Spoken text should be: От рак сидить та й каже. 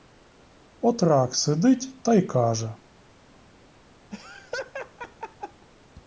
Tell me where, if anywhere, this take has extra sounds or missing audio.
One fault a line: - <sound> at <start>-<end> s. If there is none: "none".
- laugh at 4.1-5.7 s